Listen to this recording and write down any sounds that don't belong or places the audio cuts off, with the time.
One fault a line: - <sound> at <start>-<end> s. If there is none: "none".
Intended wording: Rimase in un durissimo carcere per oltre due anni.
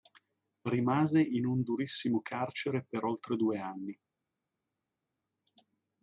none